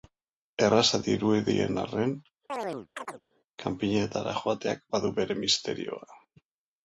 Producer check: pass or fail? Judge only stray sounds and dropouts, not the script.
fail